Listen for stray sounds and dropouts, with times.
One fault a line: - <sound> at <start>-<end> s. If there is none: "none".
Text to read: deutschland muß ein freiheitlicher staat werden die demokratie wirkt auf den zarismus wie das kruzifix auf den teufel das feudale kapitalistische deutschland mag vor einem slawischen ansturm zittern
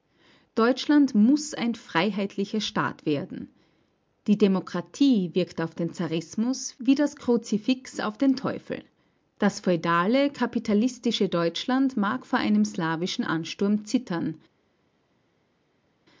none